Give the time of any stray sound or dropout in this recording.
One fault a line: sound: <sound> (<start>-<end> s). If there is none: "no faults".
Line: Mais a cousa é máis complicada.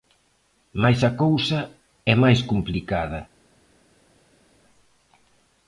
no faults